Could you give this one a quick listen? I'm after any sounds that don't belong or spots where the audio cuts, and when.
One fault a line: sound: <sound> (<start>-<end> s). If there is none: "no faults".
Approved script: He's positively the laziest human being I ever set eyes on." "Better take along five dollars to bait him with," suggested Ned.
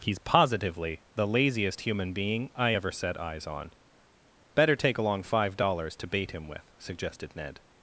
no faults